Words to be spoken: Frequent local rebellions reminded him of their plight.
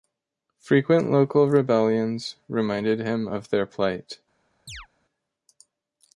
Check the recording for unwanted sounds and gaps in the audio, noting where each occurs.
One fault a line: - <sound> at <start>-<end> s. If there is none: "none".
- chirp at 4.7-4.9 s